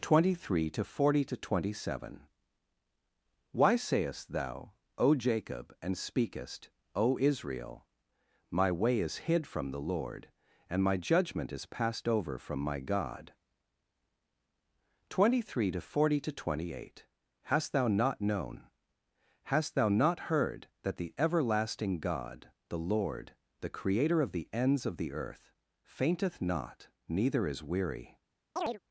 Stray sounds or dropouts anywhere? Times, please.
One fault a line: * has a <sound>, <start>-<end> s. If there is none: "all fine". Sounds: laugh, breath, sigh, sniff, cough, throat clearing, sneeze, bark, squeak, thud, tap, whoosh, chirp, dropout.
* has a chirp, 28.6-28.8 s